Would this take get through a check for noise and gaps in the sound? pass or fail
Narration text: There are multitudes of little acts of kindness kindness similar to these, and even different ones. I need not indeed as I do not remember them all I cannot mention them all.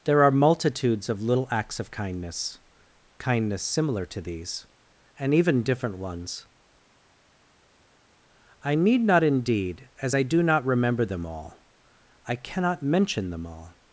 pass